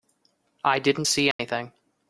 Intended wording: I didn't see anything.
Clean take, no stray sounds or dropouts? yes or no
no